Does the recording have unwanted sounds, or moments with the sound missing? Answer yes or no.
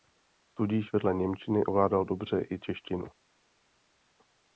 no